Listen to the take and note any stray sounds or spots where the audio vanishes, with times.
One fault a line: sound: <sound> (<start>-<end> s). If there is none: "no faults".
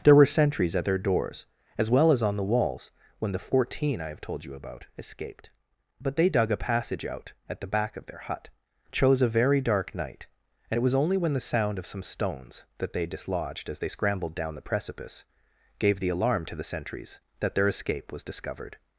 no faults